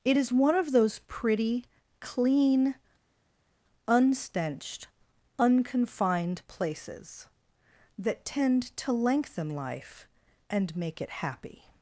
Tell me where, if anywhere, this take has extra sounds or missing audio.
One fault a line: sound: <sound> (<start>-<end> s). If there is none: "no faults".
no faults